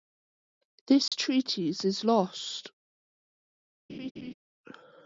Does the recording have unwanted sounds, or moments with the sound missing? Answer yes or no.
yes